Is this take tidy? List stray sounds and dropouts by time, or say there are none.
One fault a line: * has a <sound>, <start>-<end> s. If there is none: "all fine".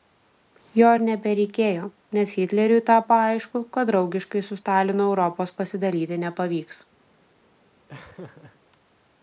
* has a laugh, 7.9-8.6 s